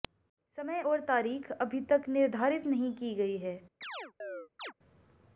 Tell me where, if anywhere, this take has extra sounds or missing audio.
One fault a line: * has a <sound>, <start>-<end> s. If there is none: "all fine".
* has a chirp, 3.8-4.7 s